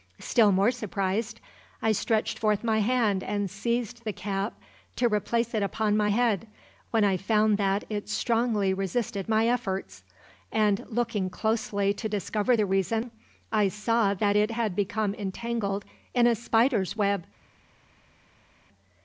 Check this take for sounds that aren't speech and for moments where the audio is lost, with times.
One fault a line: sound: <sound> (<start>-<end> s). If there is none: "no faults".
no faults